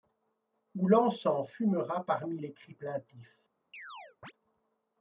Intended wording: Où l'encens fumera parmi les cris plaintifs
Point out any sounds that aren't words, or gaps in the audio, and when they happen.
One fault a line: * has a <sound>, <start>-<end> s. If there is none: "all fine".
* has a chirp, 3.7-4.3 s